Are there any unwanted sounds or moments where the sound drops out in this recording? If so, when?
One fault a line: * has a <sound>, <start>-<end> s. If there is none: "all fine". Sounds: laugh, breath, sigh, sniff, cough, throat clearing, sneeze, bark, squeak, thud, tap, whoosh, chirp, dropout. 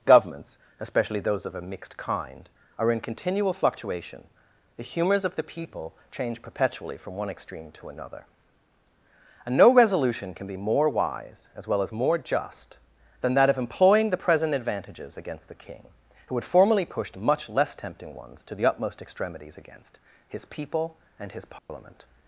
* has a dropout, 21.6-21.7 s